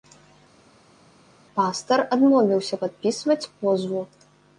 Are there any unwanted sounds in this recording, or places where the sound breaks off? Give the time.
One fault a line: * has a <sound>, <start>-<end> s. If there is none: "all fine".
all fine